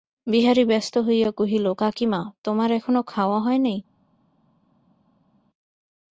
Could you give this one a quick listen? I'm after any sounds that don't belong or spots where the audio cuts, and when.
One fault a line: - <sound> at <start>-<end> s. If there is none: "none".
none